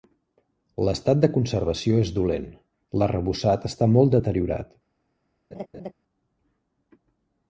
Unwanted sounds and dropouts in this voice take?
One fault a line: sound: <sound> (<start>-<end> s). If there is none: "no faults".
sound: laugh (5.5-5.9 s)